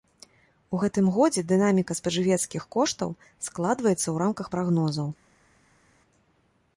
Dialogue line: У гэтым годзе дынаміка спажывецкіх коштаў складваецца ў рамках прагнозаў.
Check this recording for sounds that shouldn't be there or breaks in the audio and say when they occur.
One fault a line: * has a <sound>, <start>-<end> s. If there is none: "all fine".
all fine